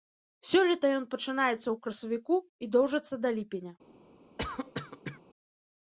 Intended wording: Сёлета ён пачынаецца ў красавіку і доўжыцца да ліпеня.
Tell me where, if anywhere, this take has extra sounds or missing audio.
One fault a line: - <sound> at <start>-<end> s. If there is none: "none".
- cough at 4.4-5.2 s